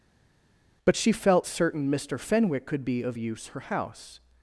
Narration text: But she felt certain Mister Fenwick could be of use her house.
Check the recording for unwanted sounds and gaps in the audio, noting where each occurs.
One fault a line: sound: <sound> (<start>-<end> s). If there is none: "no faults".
no faults